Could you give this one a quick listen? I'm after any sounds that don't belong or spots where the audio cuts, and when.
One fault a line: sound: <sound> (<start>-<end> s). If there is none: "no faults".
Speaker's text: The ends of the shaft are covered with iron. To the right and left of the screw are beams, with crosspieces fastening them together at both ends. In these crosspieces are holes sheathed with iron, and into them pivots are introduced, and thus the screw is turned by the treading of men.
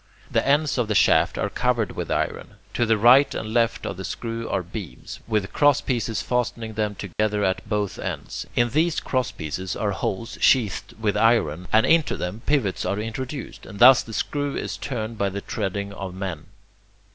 sound: dropout (7.1-7.2 s)